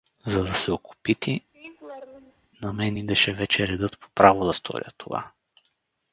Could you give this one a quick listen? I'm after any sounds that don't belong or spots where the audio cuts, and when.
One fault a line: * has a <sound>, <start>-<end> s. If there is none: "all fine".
* has a laugh, 1.5-2.5 s